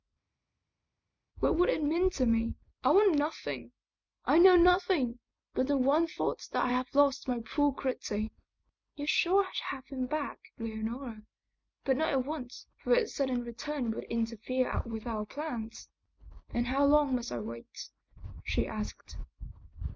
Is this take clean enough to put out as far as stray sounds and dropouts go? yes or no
yes